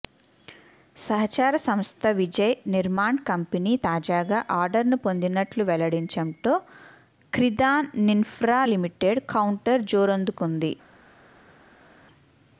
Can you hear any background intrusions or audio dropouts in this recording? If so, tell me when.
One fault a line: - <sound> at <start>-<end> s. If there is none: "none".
none